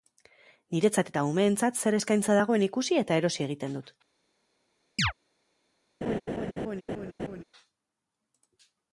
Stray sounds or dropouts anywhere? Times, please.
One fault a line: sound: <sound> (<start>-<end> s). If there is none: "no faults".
sound: chirp (5.0-5.1 s)
sound: laugh (6.0-7.4 s)